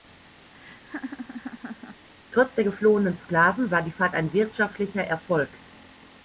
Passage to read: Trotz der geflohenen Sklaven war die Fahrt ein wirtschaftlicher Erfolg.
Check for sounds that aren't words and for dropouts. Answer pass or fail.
fail